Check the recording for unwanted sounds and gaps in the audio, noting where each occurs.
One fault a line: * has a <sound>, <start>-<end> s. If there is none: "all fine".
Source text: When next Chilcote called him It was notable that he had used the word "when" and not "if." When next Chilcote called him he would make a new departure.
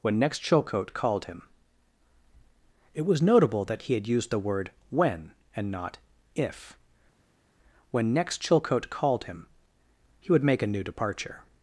all fine